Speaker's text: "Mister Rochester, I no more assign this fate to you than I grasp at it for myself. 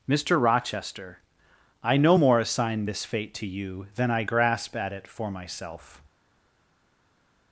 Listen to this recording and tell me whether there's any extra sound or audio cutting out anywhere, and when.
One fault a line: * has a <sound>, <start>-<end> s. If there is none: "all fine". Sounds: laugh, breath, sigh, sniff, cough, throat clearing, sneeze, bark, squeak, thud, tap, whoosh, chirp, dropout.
all fine